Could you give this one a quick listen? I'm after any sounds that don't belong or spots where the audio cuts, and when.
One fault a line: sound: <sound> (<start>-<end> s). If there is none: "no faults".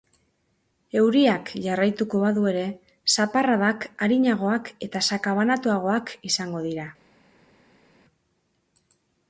no faults